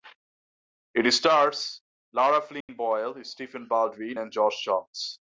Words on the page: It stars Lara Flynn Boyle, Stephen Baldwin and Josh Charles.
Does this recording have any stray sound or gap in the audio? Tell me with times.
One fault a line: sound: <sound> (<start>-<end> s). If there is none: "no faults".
sound: dropout (2.6-2.7 s)